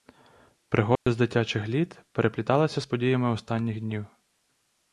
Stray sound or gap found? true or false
true